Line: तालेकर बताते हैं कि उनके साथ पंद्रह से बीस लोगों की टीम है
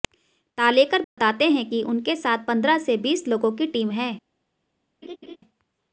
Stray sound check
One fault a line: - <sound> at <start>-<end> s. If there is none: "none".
- dropout at 1.0-1.2 s
- laugh at 5.0-5.4 s